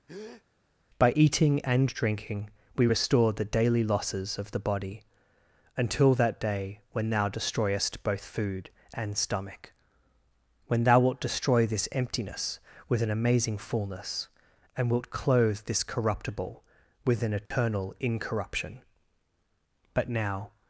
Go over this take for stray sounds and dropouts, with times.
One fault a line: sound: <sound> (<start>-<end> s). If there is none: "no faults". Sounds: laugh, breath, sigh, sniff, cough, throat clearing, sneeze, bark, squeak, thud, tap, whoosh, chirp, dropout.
sound: breath (0.1-0.4 s)
sound: dropout (17.5-17.5 s)